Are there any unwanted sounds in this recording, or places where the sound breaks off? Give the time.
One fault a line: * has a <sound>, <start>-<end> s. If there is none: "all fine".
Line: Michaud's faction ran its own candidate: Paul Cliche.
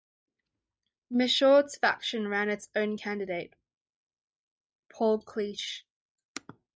all fine